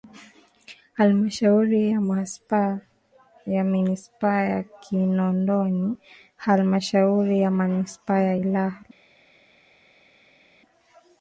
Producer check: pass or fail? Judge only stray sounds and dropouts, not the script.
pass